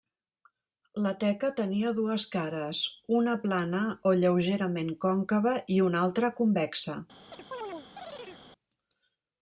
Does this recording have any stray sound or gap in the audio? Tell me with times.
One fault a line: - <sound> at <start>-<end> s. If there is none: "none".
- chirp at 7.3-8.4 s